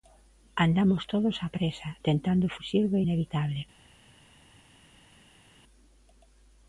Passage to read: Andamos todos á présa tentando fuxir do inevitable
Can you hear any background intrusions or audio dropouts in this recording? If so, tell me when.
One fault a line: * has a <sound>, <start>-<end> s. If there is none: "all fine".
all fine